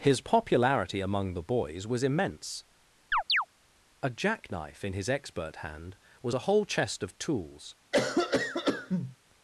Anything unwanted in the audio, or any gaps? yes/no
yes